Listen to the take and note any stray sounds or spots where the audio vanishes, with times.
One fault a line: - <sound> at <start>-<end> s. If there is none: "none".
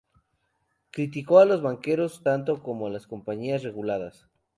none